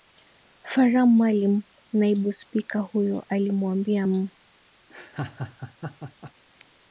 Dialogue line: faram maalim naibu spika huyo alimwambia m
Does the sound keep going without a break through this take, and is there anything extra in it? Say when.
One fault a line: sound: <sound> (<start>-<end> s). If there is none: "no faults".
sound: laugh (4.9-6.3 s)